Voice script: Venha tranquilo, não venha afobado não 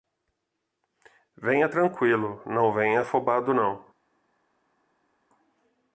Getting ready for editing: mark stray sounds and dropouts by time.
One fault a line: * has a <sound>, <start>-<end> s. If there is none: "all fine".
all fine